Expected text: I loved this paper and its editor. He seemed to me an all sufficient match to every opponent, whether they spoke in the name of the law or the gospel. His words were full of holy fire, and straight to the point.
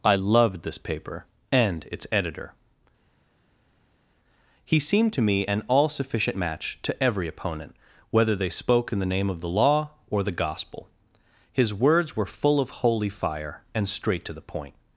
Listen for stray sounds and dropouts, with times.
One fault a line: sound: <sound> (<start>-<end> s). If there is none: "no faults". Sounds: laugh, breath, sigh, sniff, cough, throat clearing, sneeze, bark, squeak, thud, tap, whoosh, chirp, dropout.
no faults